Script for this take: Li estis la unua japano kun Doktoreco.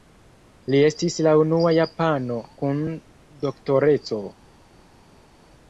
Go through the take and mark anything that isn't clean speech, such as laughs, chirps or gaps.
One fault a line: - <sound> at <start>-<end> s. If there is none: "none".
none